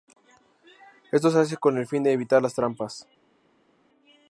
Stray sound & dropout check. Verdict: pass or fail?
pass